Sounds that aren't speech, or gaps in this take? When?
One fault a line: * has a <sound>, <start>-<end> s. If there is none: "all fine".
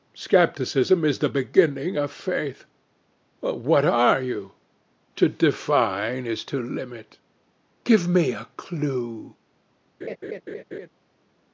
* has a laugh, 10.0-10.9 s